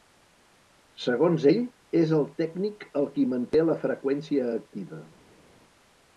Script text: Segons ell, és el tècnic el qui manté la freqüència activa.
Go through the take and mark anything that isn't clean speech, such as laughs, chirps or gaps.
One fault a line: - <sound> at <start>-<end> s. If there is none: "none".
none